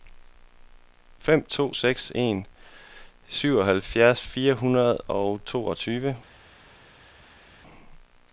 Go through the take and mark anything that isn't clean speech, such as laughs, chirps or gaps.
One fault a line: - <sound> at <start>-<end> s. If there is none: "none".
none